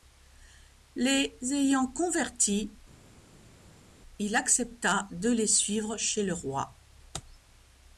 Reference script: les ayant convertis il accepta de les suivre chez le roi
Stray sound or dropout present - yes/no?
no